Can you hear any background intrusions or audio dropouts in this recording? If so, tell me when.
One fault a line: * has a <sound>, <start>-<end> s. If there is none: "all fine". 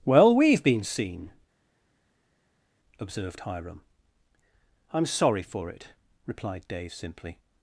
all fine